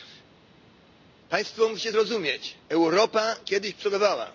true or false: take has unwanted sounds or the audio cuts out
false